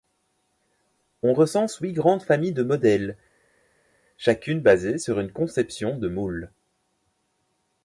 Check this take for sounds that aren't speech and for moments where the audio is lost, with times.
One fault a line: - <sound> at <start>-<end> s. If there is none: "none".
none